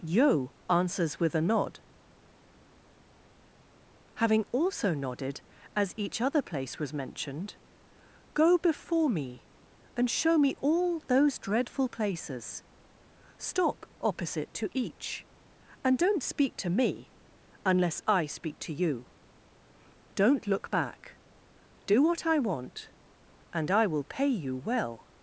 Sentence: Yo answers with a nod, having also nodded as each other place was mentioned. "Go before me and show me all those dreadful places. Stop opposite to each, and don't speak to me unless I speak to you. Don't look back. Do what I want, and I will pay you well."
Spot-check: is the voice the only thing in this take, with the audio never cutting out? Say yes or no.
yes